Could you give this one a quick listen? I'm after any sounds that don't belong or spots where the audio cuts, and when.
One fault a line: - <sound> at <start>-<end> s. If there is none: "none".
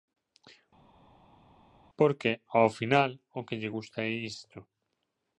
none